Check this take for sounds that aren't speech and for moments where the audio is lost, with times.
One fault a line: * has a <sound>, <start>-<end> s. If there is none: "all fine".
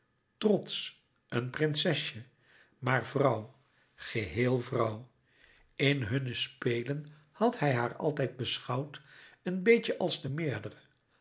all fine